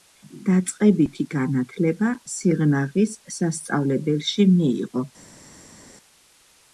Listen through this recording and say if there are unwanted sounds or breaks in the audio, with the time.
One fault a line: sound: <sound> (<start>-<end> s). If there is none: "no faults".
no faults